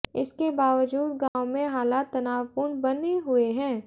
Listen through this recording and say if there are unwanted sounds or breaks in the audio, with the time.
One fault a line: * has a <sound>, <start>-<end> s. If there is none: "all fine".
* has a dropout, 1.3-1.4 s